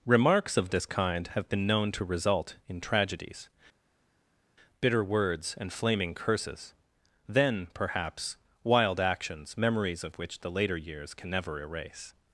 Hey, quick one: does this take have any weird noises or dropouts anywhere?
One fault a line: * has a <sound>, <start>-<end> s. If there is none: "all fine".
all fine